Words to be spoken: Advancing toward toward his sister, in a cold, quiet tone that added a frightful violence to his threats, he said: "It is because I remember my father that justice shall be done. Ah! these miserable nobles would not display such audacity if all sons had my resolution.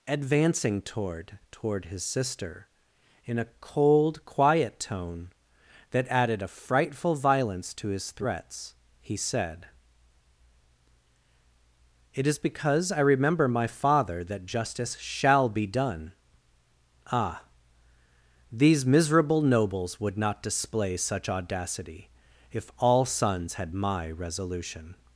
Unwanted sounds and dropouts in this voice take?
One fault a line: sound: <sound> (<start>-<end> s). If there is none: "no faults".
no faults